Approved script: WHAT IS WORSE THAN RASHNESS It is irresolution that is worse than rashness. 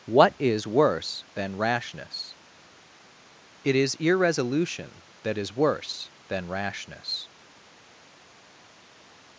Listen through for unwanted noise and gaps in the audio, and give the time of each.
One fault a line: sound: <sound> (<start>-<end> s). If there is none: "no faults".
no faults